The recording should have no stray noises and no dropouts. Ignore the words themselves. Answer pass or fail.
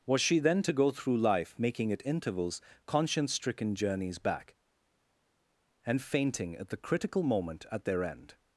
pass